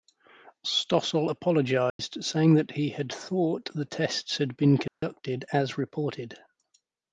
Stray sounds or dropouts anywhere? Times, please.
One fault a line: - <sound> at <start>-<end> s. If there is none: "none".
- dropout at 1.9-2.0 s
- dropout at 4.9-5.0 s